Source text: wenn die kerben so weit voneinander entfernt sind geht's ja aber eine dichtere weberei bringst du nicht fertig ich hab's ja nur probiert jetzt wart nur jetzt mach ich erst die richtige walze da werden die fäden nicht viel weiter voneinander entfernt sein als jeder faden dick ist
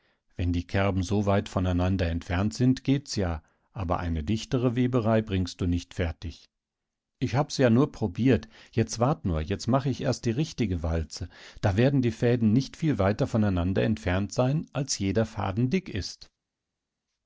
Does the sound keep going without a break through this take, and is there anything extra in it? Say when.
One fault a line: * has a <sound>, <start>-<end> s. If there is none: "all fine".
all fine